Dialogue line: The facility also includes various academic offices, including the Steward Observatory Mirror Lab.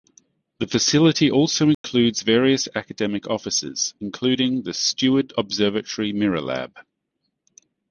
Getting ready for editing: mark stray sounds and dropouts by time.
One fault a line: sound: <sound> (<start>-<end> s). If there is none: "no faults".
sound: dropout (1.7-1.8 s)